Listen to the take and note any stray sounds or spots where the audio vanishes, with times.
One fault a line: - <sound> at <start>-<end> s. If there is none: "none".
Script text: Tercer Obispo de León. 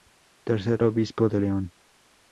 none